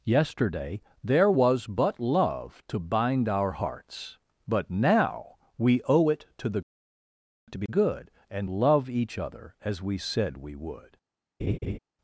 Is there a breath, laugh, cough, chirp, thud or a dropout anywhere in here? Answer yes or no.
yes